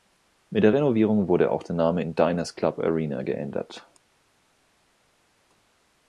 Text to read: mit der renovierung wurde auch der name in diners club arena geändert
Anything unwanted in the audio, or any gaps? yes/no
no